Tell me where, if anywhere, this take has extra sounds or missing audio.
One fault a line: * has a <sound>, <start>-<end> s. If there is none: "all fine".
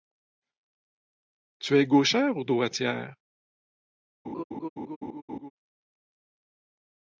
* has a laugh, 4.2-5.5 s